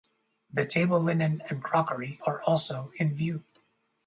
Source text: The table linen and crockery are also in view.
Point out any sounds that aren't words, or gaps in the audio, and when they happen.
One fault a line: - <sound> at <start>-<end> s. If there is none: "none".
none